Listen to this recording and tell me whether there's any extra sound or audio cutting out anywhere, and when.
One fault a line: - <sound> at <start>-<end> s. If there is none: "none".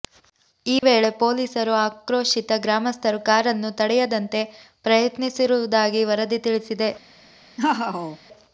- dropout at 0.8-0.8 s
- laugh at 7.6-8.2 s